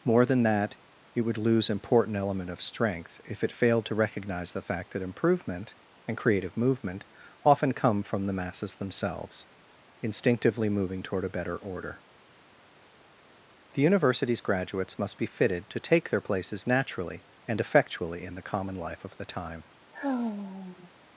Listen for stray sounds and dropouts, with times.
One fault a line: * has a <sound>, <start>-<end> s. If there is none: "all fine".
* has a sigh, 19.9-20.9 s